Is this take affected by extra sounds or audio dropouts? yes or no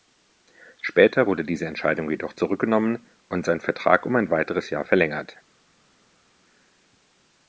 no